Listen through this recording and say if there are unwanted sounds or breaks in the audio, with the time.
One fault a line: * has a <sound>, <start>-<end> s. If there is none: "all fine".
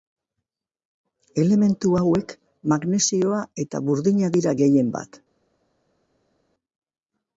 all fine